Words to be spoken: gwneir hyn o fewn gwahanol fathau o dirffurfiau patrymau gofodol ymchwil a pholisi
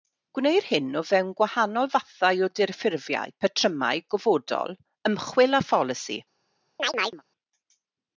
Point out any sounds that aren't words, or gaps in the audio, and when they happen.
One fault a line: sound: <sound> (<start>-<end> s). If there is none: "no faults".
sound: chirp (6.8-7.2 s)